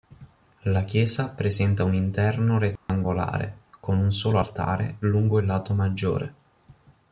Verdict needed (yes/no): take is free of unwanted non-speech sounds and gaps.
no